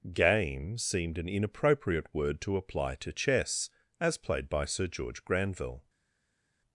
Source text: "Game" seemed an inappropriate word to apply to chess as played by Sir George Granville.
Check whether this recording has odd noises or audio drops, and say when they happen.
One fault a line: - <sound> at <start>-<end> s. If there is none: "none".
none